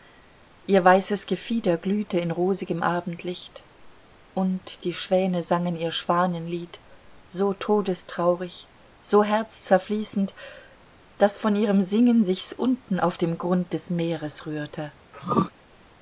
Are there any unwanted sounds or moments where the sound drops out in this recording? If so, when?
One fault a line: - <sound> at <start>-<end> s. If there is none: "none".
- throat clearing at 15.1-15.5 s